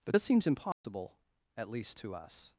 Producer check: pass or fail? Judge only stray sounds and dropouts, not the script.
fail